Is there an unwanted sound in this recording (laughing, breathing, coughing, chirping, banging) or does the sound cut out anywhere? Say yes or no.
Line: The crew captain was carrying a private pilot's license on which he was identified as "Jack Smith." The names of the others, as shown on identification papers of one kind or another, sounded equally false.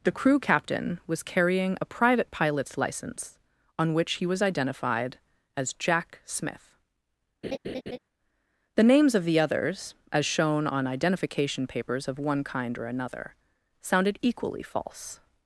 yes